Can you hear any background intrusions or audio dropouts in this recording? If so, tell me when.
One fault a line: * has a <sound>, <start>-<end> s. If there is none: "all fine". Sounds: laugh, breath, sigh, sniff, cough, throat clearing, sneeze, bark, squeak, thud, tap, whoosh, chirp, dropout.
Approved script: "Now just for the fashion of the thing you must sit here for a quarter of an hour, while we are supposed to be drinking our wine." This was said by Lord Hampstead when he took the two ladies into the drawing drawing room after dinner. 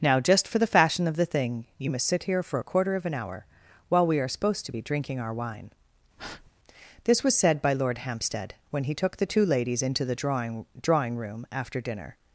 * has a breath, 6.2-6.5 s